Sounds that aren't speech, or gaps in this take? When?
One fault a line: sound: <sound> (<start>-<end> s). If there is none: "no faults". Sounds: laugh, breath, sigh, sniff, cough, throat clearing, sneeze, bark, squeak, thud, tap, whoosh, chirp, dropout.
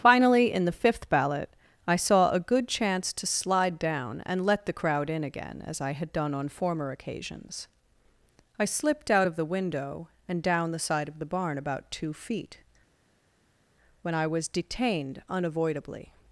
no faults